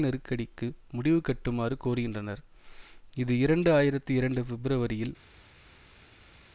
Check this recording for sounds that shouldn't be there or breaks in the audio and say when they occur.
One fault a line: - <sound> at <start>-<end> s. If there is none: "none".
none